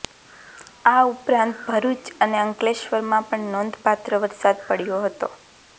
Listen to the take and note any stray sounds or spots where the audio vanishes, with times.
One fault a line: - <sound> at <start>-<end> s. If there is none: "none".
none